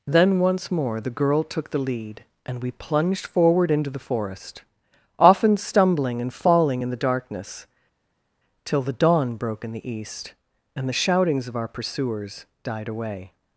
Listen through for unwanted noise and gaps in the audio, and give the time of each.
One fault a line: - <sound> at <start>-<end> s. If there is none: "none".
none